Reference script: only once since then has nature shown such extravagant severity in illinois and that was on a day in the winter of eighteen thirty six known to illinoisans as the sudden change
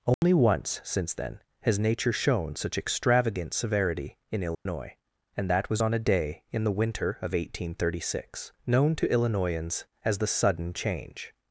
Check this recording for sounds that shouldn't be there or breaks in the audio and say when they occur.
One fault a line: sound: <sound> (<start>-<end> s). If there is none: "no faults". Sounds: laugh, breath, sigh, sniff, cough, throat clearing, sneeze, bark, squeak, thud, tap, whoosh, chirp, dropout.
sound: dropout (0.1-0.2 s)
sound: dropout (4.5-4.7 s)